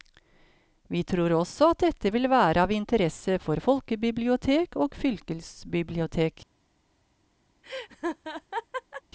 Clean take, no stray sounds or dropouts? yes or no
no